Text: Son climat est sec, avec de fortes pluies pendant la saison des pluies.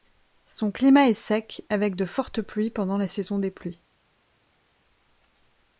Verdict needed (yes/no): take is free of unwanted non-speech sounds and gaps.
yes